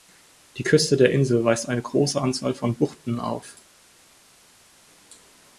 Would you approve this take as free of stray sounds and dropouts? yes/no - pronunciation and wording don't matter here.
yes